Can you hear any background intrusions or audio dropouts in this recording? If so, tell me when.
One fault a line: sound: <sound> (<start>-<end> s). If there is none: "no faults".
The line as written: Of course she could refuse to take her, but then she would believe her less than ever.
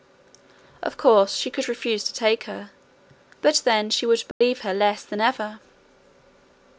sound: dropout (4.3-4.4 s)